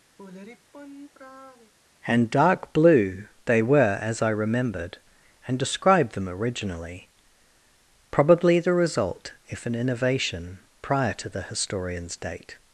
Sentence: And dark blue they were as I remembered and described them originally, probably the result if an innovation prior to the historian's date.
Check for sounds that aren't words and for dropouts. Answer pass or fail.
fail